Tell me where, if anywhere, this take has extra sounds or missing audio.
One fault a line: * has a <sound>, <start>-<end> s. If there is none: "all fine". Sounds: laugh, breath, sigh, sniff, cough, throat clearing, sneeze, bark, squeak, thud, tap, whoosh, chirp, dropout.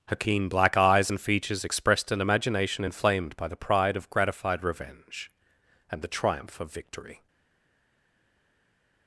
all fine